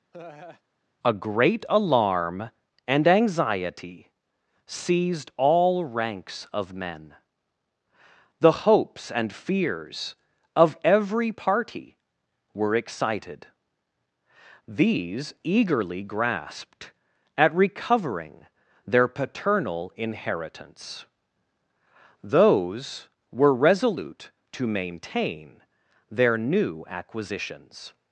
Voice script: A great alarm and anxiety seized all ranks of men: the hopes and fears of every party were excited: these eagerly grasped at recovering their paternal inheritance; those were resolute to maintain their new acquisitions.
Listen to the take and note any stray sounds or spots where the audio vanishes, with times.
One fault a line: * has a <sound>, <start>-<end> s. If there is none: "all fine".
* has a laugh, 0.1-0.6 s